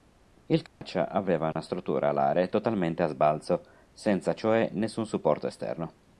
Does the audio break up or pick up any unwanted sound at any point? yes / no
yes